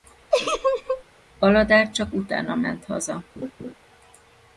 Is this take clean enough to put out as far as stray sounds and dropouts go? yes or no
no